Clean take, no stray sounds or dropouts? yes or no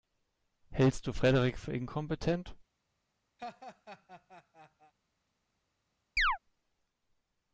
no